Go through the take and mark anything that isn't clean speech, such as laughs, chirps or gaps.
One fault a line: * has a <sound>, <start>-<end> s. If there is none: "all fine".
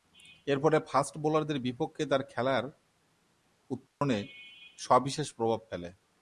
* has a dropout, 3.9-4.0 s